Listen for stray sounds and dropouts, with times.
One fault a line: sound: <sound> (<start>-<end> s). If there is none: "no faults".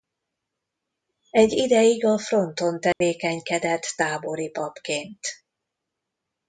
sound: dropout (2.9-3.0 s)